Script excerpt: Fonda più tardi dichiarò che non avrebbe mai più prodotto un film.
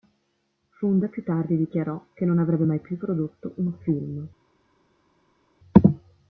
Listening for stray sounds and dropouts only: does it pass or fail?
pass